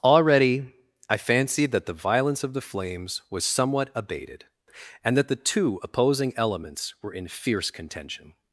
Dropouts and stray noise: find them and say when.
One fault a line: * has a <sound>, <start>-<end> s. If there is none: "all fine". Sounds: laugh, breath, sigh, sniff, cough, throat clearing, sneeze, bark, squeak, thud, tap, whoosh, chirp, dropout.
all fine